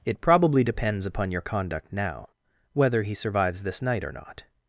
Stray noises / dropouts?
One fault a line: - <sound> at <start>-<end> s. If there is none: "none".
none